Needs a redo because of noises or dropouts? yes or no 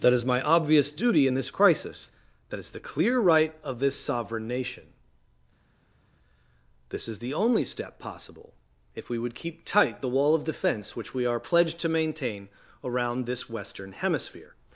no